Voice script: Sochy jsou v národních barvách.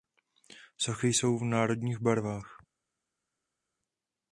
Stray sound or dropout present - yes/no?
no